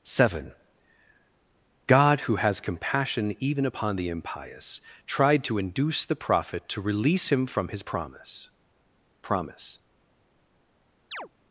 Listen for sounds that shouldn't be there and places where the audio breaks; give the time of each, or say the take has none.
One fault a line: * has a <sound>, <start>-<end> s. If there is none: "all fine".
* has a chirp, 11.1-11.3 s